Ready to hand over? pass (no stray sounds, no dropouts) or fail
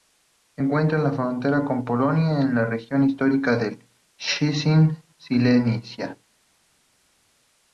pass